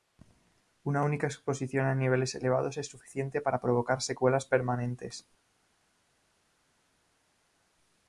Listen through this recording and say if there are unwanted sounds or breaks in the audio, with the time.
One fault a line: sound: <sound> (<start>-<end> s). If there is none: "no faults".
no faults